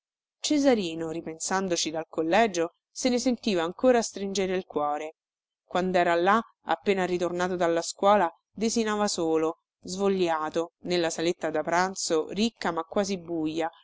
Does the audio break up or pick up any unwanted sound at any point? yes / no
no